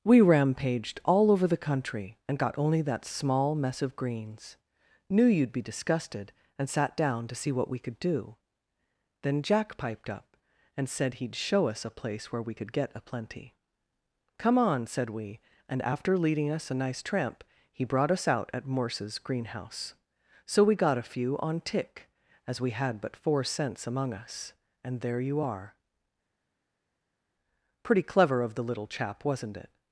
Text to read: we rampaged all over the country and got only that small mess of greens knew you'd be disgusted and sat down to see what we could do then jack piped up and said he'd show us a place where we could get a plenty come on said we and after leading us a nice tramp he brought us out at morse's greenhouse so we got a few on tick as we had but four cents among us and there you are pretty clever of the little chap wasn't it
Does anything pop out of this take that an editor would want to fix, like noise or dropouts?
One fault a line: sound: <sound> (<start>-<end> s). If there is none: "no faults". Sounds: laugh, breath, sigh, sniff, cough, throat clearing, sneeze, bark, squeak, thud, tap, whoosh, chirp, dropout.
no faults